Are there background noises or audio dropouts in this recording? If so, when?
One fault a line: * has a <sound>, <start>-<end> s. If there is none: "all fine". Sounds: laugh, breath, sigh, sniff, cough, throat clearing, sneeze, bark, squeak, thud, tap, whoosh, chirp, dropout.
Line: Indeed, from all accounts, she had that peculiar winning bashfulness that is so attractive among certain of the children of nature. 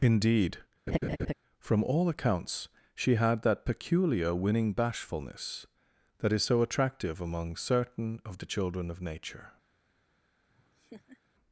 * has a laugh, 0.9-1.3 s
* has a laugh, 10.5-11.2 s